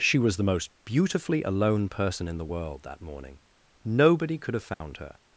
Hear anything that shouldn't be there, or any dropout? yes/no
yes